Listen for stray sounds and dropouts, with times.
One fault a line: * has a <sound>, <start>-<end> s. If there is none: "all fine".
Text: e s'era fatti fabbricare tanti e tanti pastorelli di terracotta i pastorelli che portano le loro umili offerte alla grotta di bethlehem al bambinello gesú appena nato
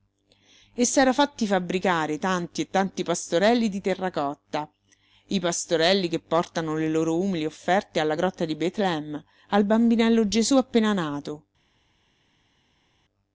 all fine